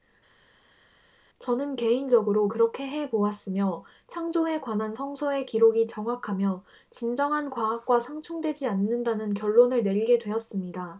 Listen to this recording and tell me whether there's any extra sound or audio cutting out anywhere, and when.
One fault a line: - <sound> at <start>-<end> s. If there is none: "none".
none